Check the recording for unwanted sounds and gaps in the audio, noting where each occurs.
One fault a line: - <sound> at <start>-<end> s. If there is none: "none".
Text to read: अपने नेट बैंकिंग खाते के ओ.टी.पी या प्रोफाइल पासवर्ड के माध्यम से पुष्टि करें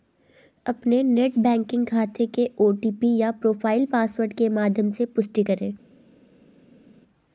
none